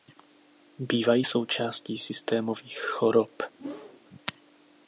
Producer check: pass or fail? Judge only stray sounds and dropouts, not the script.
fail